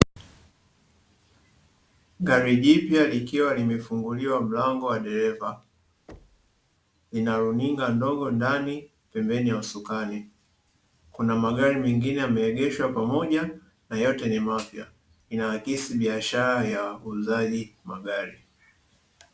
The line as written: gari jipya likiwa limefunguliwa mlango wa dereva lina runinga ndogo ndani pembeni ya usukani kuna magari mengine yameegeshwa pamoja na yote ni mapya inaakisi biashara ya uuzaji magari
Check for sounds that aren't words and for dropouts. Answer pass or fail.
fail